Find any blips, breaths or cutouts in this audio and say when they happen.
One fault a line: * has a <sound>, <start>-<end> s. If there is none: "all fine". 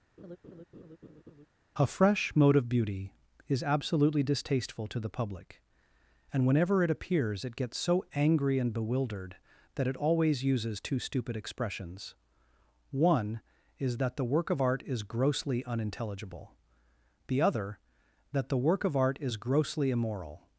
* has a laugh, 0.2-1.5 s